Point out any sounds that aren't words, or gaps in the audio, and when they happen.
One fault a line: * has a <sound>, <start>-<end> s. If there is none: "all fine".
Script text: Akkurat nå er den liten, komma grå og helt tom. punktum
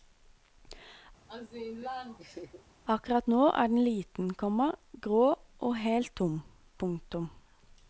* has a laugh, 1.3-2.6 s